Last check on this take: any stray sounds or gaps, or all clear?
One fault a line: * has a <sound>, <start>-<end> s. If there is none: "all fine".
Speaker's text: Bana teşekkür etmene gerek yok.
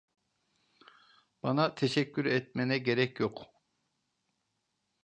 all fine